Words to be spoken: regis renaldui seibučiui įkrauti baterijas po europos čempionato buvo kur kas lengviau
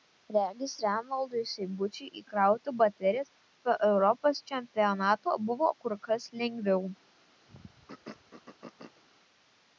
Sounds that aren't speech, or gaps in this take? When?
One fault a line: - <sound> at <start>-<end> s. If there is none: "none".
- throat clearing at 7.5-9.0 s